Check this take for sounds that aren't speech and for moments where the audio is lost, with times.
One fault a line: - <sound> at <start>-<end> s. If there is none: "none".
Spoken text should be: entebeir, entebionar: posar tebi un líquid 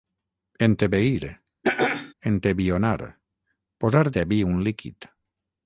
- throat clearing at 1.6-2.1 s